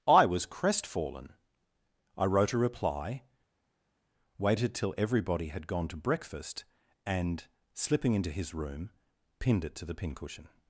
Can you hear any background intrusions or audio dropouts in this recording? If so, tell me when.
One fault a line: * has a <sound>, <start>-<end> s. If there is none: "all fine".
all fine